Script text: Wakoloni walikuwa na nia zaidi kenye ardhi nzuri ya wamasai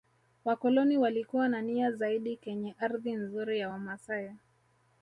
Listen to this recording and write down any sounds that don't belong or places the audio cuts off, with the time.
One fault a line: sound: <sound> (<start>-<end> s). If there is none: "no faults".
no faults